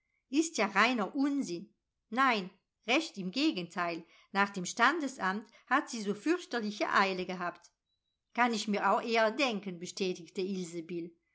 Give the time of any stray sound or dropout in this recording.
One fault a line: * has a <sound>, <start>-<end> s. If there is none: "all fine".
all fine